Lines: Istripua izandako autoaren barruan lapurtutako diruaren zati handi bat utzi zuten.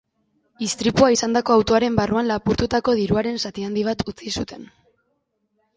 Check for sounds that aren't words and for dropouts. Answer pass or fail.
pass